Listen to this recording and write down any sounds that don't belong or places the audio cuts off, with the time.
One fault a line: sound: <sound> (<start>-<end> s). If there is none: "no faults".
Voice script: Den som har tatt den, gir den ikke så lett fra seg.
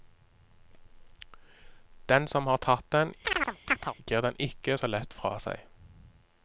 sound: chirp (3.2-3.9 s)